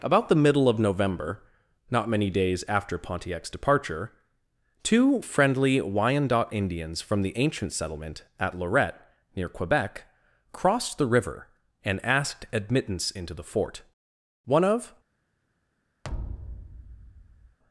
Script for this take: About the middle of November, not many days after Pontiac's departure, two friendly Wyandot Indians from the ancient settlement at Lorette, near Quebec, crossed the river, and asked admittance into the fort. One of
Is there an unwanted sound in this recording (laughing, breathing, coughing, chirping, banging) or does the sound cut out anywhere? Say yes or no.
yes